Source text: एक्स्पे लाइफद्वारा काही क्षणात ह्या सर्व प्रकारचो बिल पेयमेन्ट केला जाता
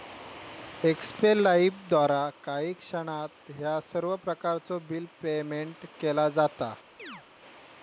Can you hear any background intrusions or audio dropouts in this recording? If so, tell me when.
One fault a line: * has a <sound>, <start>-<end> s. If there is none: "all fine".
* has a chirp, 7.0-7.2 s